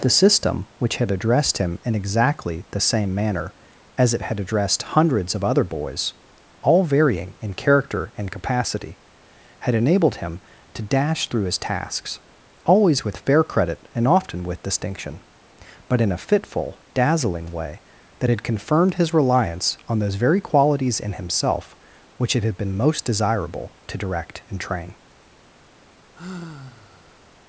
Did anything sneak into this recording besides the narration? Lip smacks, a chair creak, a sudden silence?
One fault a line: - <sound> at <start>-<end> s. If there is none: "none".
- sigh at 26.1-27.3 s